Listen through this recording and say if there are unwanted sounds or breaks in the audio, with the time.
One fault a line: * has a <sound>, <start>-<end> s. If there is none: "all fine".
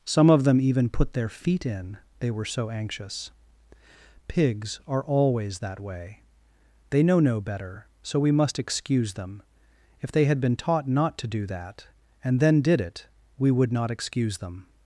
all fine